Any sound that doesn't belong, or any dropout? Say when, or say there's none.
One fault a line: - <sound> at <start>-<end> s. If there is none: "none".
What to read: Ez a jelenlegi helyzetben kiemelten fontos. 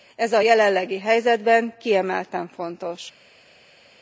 none